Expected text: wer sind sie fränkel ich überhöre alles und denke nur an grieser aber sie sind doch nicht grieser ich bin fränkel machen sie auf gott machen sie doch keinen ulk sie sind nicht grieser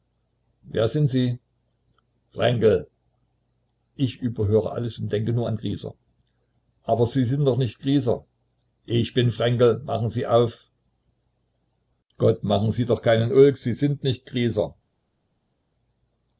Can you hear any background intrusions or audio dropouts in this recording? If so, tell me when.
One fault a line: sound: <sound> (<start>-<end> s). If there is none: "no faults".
no faults